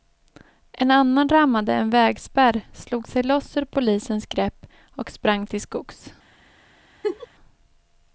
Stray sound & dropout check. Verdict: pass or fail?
fail